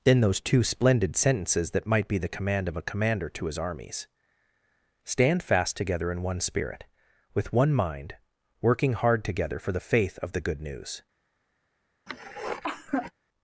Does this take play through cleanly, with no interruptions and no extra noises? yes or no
no